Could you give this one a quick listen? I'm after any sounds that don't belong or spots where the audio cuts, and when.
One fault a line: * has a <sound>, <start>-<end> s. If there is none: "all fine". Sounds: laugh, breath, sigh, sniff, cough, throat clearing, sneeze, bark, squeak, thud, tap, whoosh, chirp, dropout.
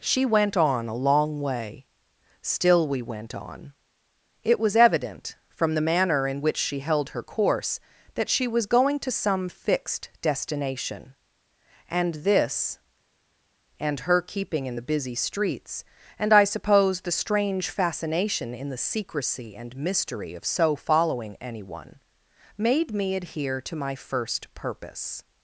all fine